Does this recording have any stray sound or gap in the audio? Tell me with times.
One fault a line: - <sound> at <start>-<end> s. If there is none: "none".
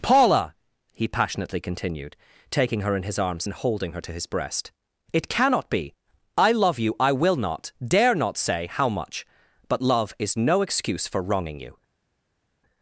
none